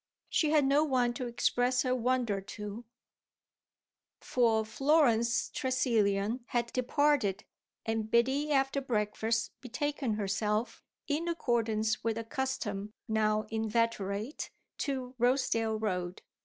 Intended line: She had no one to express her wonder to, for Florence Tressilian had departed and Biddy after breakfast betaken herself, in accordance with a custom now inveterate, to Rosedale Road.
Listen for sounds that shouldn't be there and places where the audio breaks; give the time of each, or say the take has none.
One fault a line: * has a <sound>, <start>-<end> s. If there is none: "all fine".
all fine